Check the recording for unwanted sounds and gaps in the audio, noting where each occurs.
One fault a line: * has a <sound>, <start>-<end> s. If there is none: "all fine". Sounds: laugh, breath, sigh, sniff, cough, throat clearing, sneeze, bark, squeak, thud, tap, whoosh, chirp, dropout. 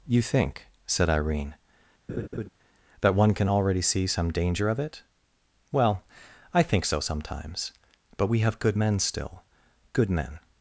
* has a laugh, 2.1-2.5 s